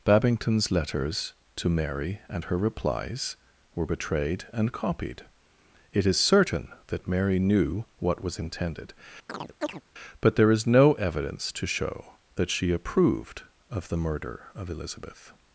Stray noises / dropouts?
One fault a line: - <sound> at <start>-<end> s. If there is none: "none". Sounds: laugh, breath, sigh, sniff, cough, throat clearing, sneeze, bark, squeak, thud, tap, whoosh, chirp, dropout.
- chirp at 9.3-9.8 s